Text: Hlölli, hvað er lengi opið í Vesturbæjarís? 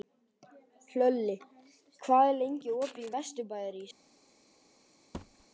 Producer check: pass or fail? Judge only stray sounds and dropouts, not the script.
fail